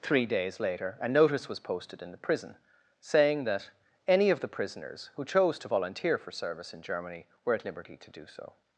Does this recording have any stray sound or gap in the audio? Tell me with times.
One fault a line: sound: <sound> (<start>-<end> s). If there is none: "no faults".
no faults